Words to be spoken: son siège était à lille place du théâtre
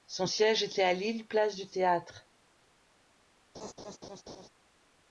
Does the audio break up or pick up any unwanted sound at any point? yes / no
yes